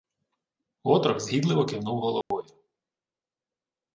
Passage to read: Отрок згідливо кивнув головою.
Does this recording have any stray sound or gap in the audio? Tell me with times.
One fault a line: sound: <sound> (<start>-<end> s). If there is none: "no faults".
sound: dropout (2.2-2.3 s)